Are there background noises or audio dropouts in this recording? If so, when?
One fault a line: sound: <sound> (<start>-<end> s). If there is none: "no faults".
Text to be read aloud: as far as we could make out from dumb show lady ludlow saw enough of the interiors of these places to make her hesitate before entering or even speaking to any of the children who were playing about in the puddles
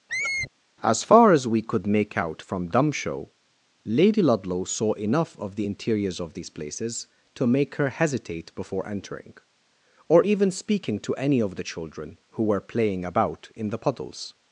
sound: squeak (0.1-0.5 s)